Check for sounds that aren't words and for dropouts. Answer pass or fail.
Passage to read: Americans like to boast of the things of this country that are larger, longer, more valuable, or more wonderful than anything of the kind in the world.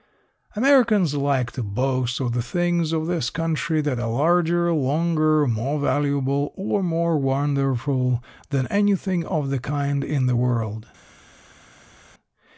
pass